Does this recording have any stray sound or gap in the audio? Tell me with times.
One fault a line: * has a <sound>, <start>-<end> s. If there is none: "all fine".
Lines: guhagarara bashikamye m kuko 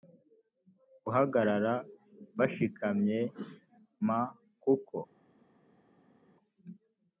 all fine